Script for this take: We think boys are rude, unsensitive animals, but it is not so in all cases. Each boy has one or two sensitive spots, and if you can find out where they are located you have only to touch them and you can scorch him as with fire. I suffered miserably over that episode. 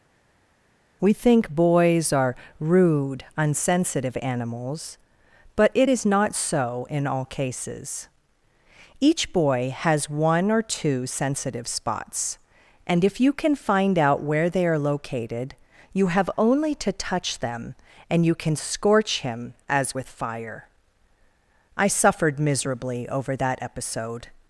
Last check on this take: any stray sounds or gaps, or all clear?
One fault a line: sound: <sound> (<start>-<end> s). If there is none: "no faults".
no faults